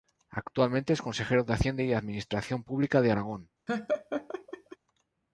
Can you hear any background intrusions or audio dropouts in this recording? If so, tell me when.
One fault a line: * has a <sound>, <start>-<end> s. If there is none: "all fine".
* has a laugh, 3.7-4.8 s